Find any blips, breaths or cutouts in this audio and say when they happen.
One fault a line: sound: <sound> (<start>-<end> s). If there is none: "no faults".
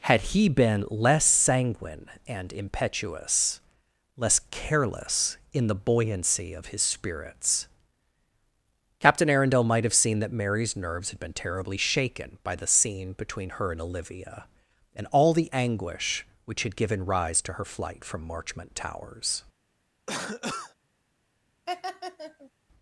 sound: cough (20.1-20.8 s)
sound: laugh (21.7-22.5 s)